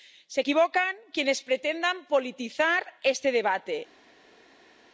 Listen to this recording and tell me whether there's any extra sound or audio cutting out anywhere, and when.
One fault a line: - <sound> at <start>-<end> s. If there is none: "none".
none